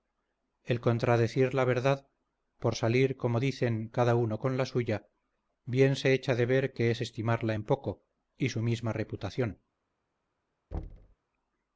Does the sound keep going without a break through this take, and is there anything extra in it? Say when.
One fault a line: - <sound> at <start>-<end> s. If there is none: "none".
- thud at 10.7-11.2 s